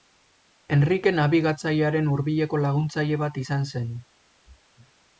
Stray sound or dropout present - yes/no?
no